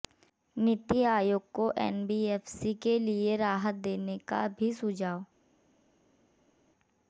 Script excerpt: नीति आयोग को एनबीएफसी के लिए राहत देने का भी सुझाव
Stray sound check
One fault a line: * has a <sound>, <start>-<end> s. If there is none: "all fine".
all fine